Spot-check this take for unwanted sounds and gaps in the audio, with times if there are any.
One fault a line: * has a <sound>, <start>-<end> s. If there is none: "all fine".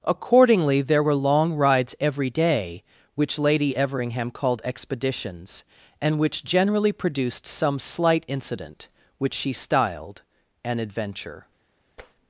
* has a tap, 12.0-12.2 s